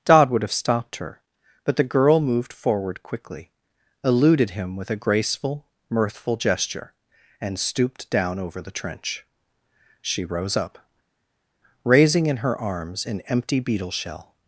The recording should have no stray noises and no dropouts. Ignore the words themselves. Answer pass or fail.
pass